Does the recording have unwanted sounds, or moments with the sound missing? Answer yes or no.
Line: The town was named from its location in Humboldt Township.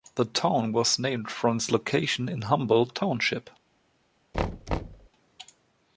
yes